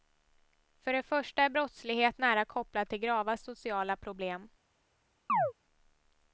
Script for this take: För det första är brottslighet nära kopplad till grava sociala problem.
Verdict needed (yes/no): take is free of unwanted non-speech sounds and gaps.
no